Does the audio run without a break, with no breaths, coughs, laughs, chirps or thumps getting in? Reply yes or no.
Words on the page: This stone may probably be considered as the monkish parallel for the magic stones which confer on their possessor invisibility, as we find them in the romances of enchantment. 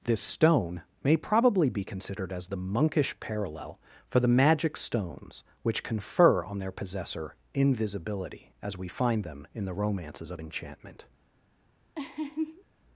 no